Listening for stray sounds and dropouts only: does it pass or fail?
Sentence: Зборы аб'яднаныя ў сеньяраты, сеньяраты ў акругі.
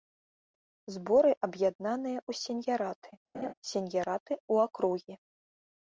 fail